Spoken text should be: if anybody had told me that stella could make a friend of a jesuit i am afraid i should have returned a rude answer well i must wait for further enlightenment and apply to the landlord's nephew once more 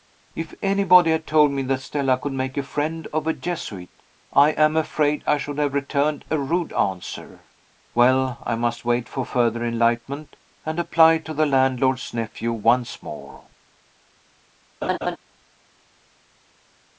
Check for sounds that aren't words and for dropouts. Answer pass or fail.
fail